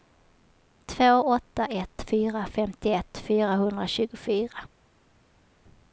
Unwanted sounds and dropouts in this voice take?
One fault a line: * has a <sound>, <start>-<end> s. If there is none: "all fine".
all fine